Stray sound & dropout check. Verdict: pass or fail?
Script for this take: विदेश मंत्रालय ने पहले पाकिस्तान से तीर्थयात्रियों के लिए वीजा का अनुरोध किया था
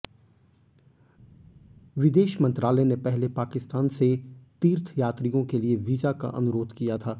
pass